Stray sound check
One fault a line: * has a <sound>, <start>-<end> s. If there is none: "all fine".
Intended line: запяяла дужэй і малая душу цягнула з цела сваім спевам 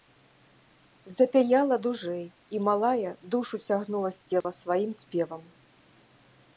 * has a dropout, 4.4-4.4 s